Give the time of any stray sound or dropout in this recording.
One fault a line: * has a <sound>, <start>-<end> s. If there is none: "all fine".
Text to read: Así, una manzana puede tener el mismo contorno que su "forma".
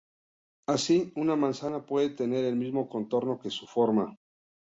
all fine